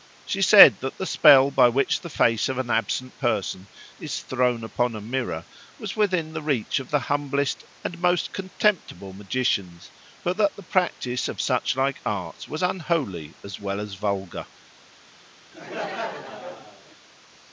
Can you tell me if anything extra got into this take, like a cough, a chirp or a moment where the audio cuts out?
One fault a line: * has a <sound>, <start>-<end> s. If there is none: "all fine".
* has a laugh, 15.5-17.0 s